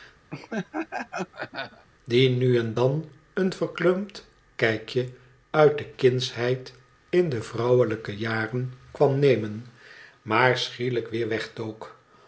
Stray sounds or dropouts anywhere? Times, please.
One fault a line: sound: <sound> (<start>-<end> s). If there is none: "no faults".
sound: laugh (0.3-1.9 s)